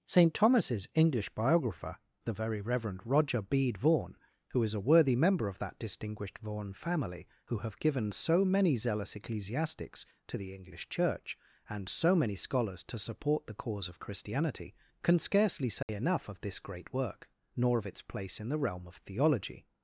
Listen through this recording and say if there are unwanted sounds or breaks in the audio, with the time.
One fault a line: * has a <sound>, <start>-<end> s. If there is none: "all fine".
* has a dropout, 15.8-15.9 s